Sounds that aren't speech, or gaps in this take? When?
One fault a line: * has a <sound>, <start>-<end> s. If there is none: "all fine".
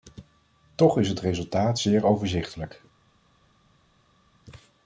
all fine